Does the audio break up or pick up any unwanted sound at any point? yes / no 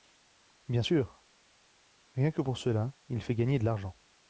no